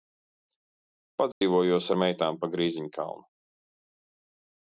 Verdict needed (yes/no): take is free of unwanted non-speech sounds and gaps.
no